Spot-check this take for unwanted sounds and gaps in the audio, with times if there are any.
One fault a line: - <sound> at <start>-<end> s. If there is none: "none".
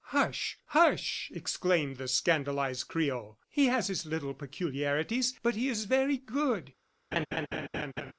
- laugh at 7.1-8.1 s